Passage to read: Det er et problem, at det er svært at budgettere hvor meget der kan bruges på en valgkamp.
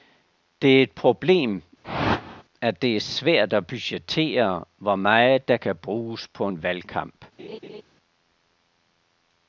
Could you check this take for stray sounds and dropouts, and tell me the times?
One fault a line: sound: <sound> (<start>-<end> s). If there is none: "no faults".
sound: whoosh (1.8-2.4 s)
sound: laugh (7.4-7.8 s)